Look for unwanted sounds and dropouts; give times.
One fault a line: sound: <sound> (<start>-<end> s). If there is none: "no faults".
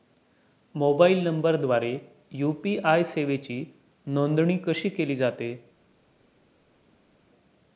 no faults